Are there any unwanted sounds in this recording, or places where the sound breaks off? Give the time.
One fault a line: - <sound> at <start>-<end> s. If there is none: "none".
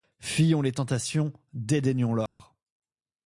- dropout at 2.3-2.4 s